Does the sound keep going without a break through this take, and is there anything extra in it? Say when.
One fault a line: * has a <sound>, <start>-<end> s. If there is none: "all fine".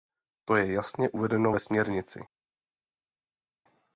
all fine